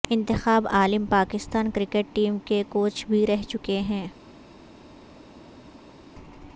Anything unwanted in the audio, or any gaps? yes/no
no